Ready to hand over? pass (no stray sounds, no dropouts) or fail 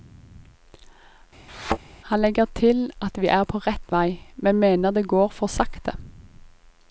fail